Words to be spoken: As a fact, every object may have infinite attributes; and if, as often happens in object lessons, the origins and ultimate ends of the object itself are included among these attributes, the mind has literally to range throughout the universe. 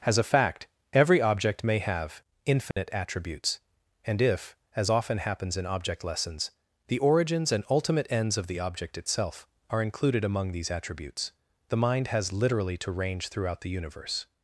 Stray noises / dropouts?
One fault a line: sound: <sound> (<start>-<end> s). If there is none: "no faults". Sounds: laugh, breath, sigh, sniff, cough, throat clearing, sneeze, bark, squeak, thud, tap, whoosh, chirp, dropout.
sound: dropout (2.7-2.8 s)